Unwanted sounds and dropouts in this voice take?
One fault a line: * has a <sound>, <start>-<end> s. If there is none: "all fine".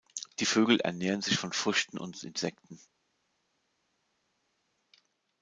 all fine